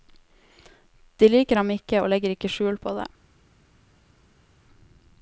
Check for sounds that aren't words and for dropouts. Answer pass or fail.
pass